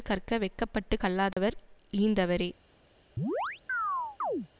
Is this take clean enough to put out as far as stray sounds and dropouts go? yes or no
no